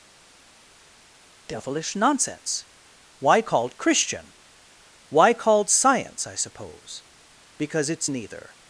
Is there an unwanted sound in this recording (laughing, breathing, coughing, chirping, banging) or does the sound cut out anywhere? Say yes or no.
no